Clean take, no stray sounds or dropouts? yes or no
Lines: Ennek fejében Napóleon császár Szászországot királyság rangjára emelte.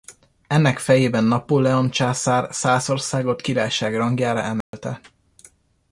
no